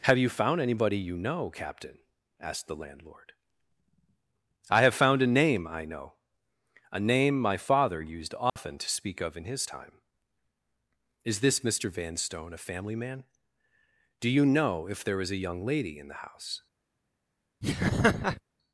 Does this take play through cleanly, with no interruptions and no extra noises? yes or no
no